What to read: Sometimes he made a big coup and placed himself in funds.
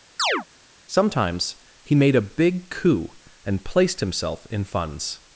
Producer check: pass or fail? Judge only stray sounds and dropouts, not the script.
fail